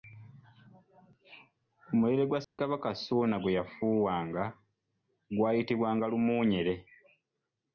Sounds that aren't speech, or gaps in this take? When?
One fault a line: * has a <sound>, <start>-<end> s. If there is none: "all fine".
* has a dropout, 2.4-2.6 s